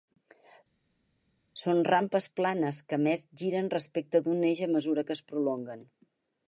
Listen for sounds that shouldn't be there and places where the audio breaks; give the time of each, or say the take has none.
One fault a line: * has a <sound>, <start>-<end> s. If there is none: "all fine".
all fine